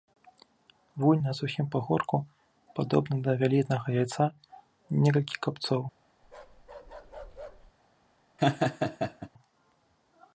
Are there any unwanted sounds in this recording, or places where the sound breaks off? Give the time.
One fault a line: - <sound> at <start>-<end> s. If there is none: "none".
- bark at 6.2-7.7 s
- laugh at 8.4-9.3 s